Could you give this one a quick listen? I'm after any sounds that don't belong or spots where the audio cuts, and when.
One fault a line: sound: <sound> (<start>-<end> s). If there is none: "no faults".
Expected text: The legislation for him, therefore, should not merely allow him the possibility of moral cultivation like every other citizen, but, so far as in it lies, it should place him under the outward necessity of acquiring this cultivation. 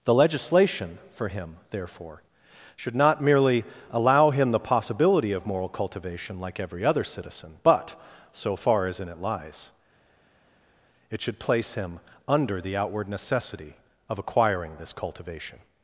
no faults